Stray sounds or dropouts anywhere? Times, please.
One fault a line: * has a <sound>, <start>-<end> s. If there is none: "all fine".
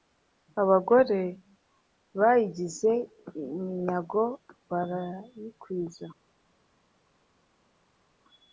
all fine